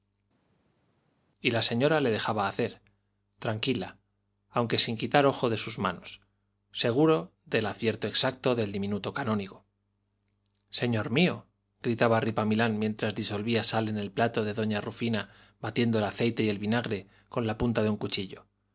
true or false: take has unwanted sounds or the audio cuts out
false